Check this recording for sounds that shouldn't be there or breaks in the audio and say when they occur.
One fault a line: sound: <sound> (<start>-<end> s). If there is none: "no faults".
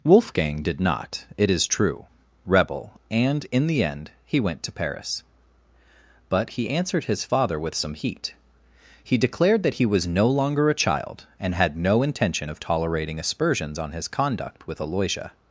no faults